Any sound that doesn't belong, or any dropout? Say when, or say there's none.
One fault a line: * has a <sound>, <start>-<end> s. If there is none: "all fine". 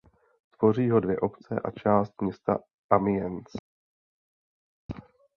all fine